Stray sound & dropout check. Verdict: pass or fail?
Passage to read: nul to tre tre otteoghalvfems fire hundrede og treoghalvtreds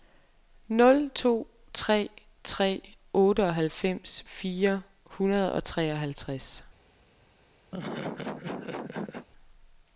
fail